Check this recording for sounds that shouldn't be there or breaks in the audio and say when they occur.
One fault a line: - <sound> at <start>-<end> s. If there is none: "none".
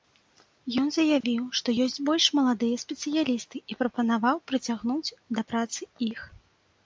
- dropout at 1.2-1.2 s